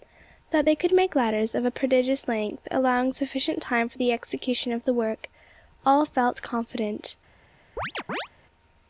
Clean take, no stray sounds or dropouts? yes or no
no